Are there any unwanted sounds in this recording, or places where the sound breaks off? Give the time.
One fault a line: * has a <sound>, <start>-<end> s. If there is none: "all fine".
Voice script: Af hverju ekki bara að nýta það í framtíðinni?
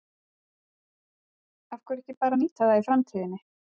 all fine